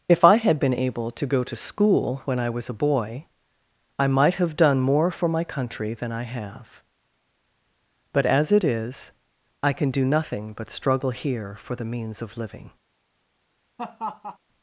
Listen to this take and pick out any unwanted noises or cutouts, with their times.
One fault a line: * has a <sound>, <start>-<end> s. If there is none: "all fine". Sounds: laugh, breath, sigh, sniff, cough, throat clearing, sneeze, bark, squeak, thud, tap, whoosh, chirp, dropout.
* has a laugh, 13.8-14.4 s